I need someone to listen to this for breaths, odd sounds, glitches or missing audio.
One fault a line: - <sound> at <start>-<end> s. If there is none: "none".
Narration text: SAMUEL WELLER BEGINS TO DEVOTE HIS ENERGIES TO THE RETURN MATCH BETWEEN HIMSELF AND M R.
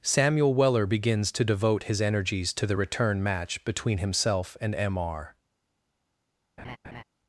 - laugh at 6.6-7.0 s